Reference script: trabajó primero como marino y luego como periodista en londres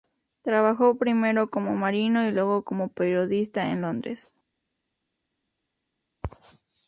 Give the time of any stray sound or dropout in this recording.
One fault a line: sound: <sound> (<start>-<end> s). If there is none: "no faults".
no faults